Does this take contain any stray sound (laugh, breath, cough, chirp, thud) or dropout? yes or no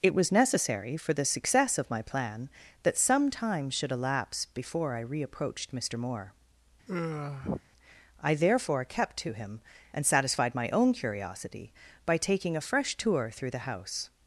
yes